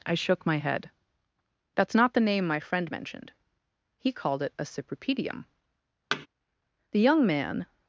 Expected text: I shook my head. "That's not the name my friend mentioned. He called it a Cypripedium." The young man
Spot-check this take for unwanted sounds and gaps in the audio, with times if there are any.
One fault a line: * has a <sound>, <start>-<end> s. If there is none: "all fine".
* has a thud, 6.1-6.3 s